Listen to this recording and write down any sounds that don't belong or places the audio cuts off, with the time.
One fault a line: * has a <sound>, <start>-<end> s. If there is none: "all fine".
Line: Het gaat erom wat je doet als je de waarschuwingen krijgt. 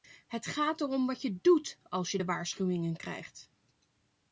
all fine